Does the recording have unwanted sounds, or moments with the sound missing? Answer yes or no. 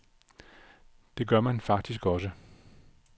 no